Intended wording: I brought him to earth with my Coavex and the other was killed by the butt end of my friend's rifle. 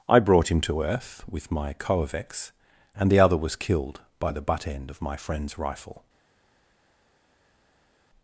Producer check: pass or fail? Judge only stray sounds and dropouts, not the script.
pass